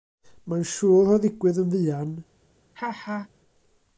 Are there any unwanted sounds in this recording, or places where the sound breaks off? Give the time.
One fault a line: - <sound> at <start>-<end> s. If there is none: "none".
- laugh at 2.7-3.3 s